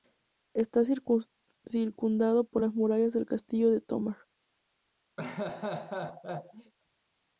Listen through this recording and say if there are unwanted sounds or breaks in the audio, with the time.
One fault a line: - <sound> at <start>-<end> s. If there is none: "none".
- laugh at 5.2-6.7 s